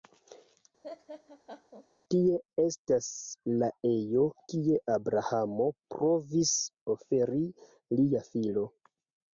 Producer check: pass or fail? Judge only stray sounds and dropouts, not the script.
fail